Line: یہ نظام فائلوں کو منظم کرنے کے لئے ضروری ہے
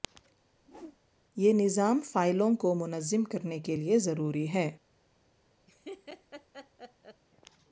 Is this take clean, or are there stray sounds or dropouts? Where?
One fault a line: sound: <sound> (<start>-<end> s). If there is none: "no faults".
sound: whoosh (0.6-1.0 s)
sound: laugh (5.7-7.2 s)